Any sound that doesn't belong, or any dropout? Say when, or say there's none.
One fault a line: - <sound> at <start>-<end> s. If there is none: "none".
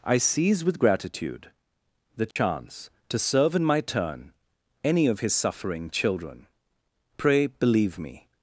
- dropout at 2.3-2.4 s